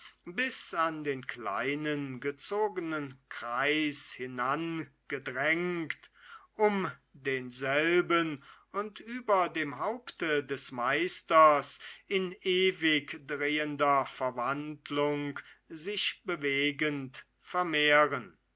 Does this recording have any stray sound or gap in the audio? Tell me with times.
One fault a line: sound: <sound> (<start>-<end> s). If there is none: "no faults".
no faults